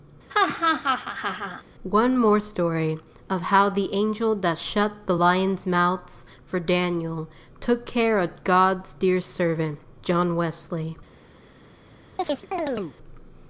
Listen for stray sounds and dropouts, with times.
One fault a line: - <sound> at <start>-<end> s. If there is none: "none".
- laugh at 0.3-1.6 s
- chirp at 12.2-13.0 s